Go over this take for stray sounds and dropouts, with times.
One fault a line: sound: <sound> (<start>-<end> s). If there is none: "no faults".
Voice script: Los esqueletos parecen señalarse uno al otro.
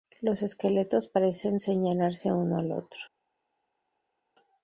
no faults